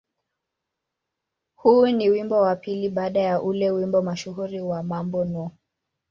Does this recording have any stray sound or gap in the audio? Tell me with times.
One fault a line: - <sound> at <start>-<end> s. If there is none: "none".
none